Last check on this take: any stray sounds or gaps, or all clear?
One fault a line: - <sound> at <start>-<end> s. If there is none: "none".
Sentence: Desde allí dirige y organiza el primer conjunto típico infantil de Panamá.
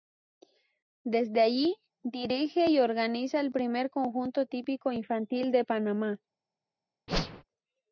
- whoosh at 7.1-7.4 s